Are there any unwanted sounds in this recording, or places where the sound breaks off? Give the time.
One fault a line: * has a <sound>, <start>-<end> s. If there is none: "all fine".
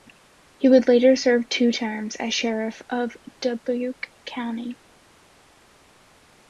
all fine